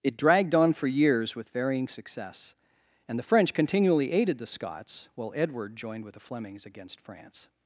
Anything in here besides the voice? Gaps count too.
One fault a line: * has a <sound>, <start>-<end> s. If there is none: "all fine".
all fine